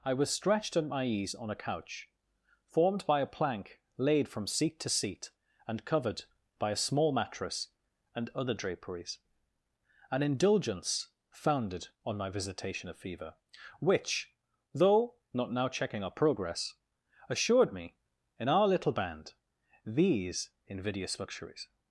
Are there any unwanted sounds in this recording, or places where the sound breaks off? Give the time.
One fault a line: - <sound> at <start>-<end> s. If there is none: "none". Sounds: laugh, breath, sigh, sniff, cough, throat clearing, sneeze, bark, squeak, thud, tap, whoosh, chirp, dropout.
none